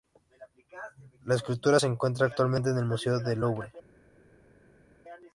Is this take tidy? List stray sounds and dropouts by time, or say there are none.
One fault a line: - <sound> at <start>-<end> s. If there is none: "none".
none